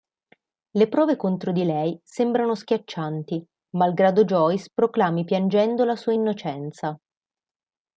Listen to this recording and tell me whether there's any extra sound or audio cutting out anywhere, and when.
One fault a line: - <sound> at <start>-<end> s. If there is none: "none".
none